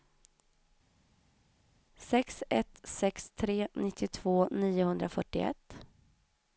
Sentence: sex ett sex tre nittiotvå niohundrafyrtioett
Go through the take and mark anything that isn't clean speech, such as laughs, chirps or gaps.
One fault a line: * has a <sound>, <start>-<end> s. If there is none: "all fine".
all fine